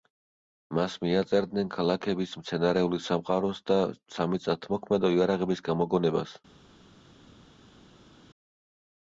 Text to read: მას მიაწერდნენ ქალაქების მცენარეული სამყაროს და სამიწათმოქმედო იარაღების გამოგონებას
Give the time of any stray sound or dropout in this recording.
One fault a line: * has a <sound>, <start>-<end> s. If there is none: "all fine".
all fine